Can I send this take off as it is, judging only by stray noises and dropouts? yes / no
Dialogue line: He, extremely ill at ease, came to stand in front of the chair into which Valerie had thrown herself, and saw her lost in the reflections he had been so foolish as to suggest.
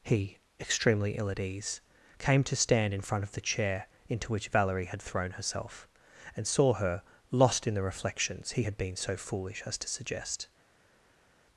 yes